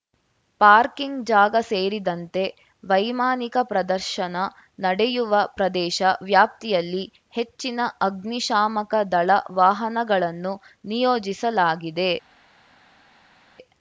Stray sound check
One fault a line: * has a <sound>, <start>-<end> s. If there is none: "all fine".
all fine